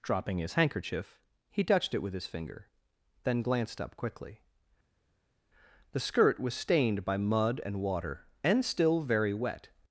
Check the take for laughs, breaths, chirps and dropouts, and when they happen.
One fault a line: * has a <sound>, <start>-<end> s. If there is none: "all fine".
all fine